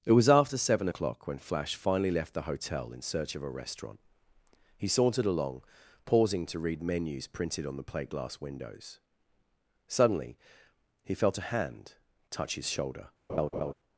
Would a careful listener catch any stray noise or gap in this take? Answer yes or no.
yes